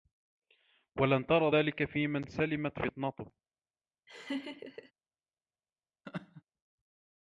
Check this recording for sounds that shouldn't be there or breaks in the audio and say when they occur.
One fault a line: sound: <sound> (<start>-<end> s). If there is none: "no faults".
sound: laugh (4.1-4.9 s)
sound: laugh (6.0-6.4 s)